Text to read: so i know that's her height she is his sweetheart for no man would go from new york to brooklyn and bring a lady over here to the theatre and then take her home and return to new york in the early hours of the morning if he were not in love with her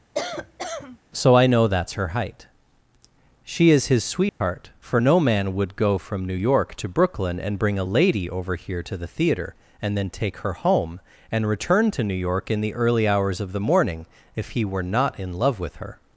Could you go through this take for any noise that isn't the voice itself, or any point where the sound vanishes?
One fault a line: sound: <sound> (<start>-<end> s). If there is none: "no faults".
sound: cough (0.1-1.0 s)
sound: dropout (4.3-4.4 s)